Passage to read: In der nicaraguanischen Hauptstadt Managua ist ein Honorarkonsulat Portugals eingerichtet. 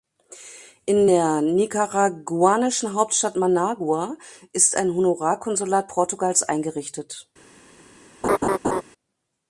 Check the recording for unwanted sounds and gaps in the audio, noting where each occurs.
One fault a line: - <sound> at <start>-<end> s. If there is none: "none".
- laugh at 8.2-8.8 s